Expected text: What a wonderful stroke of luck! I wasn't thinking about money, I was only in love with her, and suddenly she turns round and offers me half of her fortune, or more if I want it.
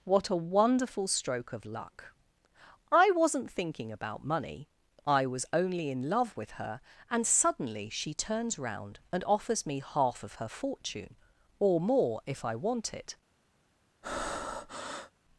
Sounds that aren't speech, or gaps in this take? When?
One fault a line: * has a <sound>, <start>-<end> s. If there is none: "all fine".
* has a breath, 14.0-15.1 s